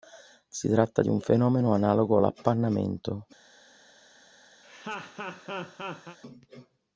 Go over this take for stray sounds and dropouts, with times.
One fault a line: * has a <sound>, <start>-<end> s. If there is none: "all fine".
* has a laugh, 4.6-6.2 s